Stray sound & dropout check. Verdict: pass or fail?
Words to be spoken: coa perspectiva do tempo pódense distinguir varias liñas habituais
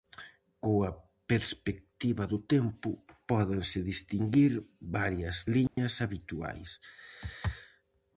fail